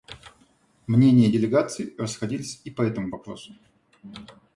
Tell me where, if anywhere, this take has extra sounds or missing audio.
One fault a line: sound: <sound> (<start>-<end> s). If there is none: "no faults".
no faults